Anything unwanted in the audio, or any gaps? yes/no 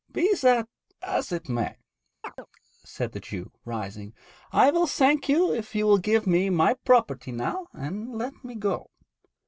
yes